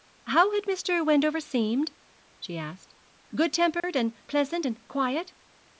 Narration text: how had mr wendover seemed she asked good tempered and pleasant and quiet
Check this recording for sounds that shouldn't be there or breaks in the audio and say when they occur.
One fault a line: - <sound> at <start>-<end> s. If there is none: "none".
- dropout at 3.8-3.8 s